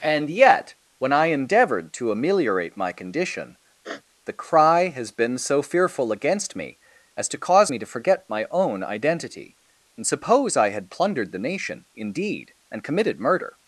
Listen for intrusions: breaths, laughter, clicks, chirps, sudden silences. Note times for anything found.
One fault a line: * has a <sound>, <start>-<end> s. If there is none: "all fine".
* has a sniff, 3.8-4.0 s